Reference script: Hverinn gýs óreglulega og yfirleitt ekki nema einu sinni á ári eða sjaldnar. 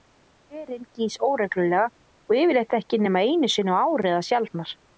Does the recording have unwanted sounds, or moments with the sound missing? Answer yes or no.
no